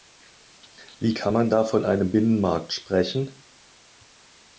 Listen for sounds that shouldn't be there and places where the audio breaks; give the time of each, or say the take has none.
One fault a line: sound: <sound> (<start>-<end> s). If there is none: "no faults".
no faults